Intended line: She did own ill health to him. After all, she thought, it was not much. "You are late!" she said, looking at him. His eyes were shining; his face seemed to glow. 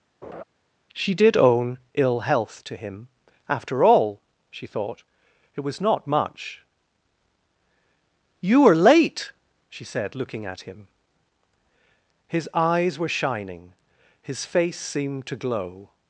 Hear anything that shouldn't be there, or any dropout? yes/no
yes